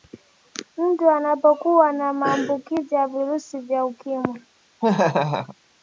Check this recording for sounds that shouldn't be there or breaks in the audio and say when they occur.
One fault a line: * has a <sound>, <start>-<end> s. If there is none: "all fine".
* has a laugh, 4.8-5.6 s